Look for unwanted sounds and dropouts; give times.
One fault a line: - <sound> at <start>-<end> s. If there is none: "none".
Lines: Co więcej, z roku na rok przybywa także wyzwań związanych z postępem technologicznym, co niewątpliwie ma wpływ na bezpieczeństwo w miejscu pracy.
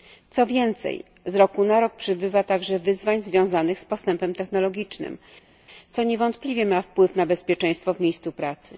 none